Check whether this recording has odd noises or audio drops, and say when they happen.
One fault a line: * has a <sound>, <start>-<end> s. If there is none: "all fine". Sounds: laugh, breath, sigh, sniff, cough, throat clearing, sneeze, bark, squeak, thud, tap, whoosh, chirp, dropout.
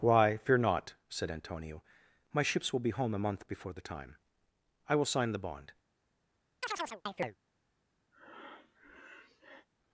* has a chirp, 6.6-7.4 s
* has a breath, 8.1-9.7 s